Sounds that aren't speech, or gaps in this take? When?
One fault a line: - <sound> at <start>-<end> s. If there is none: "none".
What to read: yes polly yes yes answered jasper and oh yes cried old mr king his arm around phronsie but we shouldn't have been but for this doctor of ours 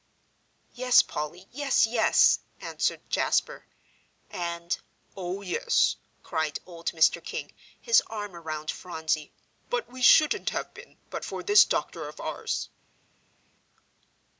none